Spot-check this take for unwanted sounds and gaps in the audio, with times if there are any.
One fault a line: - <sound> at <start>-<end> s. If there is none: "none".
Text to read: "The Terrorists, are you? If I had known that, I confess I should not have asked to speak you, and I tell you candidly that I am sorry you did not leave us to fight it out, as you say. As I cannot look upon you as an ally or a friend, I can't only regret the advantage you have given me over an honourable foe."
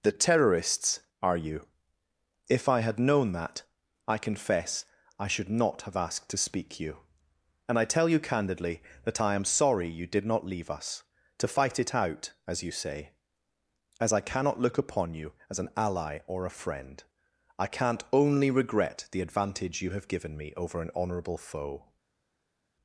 none